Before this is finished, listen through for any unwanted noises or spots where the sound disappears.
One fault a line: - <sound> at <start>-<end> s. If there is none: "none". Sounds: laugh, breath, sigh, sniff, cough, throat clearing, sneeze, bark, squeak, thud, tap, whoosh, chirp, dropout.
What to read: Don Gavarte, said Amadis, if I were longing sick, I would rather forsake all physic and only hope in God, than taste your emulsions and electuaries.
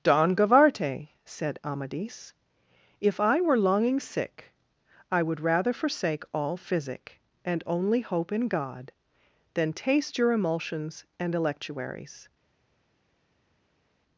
none